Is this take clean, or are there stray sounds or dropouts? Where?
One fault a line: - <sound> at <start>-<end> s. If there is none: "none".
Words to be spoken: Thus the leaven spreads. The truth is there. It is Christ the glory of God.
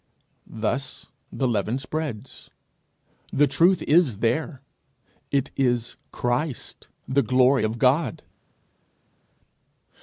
none